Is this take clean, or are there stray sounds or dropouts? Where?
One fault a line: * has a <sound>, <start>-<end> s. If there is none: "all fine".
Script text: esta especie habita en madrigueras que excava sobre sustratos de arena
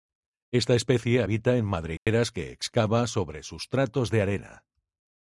* has a dropout, 2.0-2.1 s